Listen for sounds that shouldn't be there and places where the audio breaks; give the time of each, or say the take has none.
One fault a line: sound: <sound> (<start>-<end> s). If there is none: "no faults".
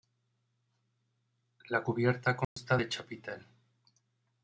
sound: dropout (2.4-2.6 s)